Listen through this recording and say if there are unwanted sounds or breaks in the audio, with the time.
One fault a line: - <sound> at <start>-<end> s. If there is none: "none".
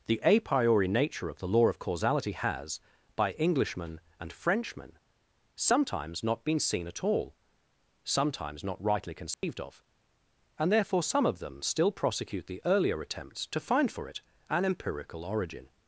- dropout at 9.3-9.4 s